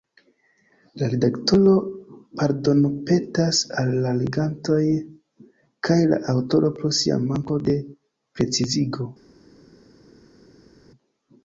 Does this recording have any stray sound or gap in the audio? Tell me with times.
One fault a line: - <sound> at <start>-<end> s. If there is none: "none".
none